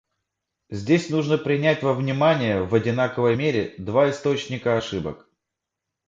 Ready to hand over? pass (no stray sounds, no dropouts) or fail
pass